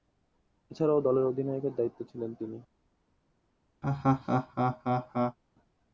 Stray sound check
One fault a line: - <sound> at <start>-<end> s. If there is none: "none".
- laugh at 3.8-5.4 s